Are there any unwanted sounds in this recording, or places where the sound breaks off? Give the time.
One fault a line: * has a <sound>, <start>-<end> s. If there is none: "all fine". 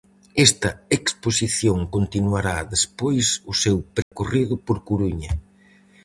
* has a dropout, 4.0-4.1 s